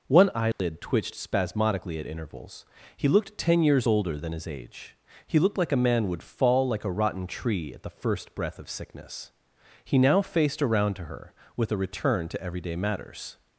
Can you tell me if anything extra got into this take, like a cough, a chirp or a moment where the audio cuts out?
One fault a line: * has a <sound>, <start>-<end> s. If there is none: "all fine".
* has a dropout, 0.5-0.6 s